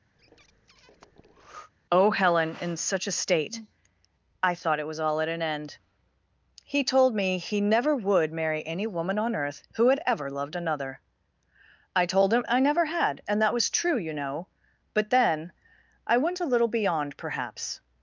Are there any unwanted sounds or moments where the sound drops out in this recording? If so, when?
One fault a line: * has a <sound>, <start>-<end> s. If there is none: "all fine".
* has a breath, 0.1-1.7 s